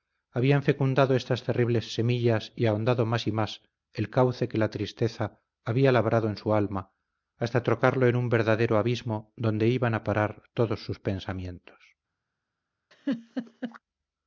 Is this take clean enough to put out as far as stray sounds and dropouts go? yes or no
no